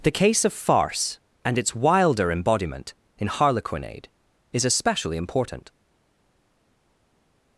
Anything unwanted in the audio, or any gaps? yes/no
no